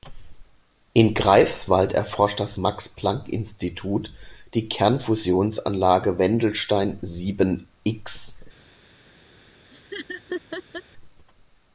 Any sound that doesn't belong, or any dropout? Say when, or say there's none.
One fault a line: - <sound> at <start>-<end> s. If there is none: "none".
- laugh at 9.7-10.8 s